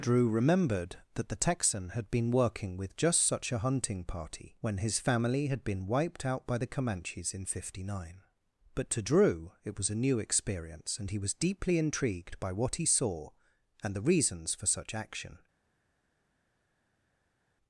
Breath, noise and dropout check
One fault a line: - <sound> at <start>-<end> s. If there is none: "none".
none